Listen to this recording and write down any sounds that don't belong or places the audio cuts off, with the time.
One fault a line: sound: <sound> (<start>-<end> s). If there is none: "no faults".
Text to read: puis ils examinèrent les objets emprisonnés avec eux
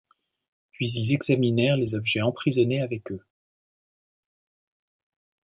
no faults